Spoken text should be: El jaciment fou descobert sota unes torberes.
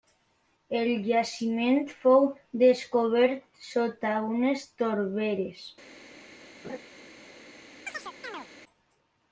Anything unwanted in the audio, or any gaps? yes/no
yes